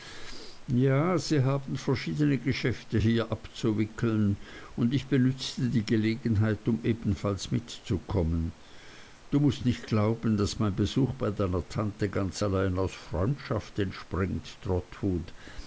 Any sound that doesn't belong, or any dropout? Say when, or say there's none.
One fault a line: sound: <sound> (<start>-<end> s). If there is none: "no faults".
no faults